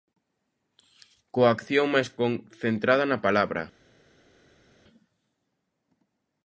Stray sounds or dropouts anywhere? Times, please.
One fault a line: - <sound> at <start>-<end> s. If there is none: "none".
none